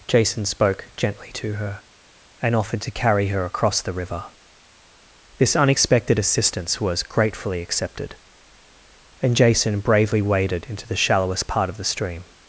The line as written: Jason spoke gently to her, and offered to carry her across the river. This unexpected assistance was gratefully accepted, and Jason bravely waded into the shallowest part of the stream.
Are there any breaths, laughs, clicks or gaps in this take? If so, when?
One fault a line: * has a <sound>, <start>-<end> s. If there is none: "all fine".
all fine